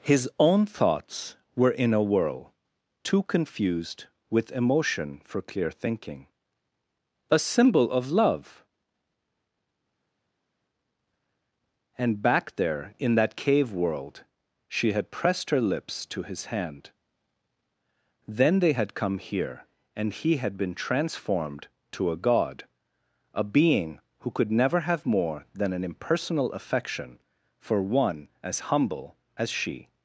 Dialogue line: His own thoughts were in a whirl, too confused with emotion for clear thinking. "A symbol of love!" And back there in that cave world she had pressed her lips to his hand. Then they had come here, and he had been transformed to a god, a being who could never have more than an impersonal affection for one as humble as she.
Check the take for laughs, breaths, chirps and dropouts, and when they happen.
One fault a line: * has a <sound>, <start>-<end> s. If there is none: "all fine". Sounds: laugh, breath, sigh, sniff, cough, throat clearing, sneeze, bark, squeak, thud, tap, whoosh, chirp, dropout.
all fine